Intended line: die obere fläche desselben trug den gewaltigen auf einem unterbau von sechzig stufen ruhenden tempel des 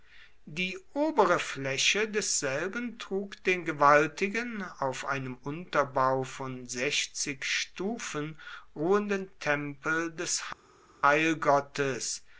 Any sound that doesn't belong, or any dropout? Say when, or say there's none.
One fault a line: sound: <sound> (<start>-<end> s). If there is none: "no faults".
no faults